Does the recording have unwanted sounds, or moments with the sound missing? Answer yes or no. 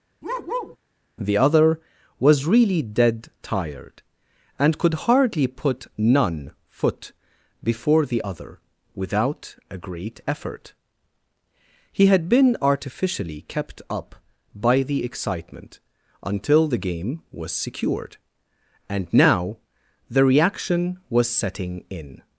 yes